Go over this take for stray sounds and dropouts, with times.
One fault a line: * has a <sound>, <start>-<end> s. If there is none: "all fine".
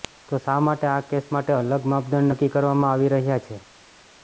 all fine